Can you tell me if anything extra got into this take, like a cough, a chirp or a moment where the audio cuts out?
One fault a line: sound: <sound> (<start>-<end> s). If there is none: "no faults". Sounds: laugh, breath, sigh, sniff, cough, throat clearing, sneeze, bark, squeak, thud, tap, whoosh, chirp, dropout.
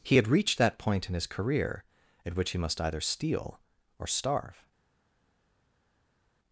no faults